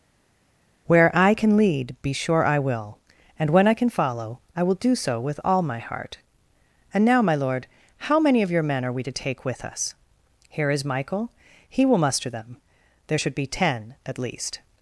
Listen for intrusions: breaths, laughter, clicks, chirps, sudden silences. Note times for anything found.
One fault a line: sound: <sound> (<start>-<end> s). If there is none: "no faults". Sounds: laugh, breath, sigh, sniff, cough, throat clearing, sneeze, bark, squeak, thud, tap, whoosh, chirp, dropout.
no faults